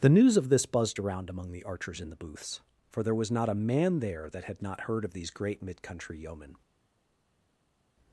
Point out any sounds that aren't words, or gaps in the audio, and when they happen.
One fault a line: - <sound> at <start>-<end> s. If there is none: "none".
none